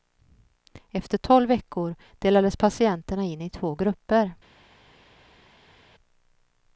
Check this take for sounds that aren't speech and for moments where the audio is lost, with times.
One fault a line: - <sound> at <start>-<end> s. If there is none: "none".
none